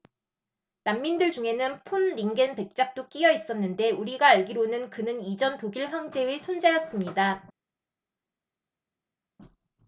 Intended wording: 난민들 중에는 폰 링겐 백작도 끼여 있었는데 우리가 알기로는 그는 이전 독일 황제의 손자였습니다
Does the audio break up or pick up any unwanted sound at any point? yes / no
no